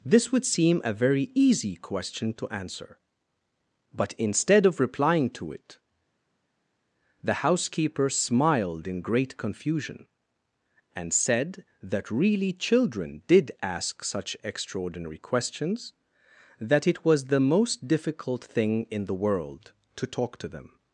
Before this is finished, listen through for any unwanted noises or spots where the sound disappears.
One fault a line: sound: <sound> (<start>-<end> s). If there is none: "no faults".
no faults